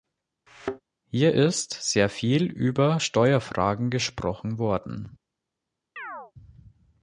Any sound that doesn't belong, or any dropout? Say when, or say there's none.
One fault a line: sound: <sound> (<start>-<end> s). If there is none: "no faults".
sound: thud (0.5-0.8 s)
sound: chirp (6.0-6.3 s)